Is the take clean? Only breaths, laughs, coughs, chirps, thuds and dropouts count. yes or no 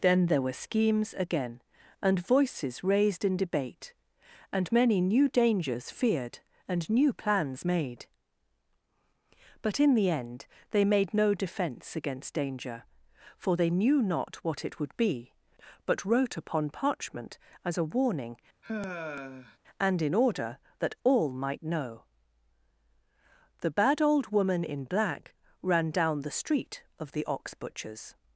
no